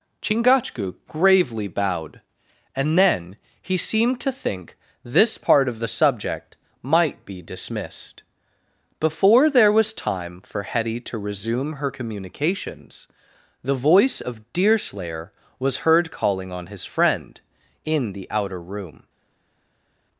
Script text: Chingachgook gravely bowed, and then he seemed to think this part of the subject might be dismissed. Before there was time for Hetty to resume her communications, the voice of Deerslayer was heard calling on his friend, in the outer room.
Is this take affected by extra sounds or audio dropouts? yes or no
no